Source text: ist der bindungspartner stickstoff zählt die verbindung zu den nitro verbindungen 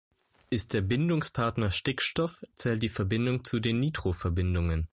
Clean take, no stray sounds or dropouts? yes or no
yes